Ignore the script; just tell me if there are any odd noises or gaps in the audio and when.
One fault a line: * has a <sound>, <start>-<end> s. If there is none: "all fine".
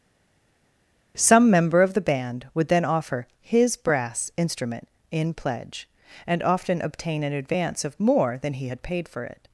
all fine